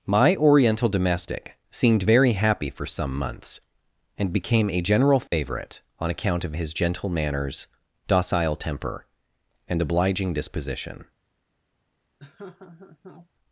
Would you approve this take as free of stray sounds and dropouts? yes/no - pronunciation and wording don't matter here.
no